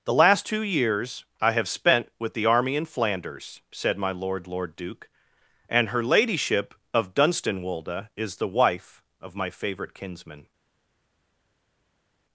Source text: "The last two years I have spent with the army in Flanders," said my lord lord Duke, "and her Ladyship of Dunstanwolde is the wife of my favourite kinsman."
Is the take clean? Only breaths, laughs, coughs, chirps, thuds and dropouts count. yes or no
yes